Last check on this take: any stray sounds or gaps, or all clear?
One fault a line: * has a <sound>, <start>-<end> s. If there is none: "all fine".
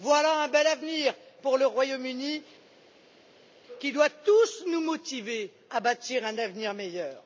all fine